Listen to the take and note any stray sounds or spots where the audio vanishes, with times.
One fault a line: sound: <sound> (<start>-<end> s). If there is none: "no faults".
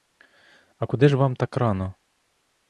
no faults